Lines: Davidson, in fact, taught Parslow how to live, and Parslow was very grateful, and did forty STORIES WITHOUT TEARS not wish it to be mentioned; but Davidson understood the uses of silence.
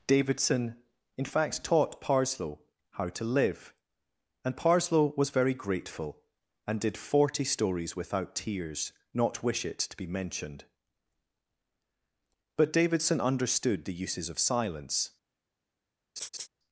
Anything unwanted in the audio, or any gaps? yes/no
yes